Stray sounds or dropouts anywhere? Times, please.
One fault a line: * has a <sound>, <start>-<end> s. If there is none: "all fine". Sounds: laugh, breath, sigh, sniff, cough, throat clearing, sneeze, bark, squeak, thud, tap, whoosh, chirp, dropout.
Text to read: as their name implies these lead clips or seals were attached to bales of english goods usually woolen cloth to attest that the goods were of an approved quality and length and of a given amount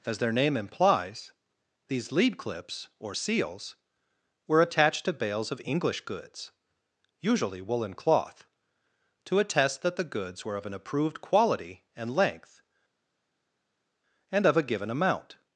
all fine